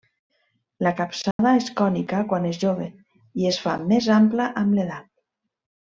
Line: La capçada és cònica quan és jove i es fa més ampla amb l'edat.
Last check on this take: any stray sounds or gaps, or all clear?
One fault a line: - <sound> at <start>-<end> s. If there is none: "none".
- dropout at 1.3-1.4 s